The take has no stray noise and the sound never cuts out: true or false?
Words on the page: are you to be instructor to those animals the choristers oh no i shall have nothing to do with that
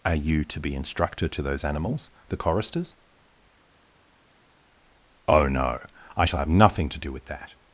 true